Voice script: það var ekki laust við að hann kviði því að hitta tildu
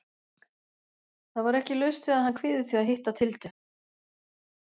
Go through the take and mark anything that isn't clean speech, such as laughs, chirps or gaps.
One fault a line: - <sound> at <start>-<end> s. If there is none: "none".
none